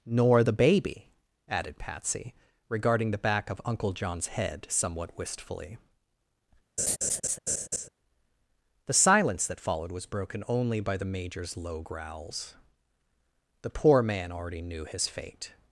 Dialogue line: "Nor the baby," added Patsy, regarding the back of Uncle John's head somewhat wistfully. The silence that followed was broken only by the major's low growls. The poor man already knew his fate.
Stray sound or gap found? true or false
true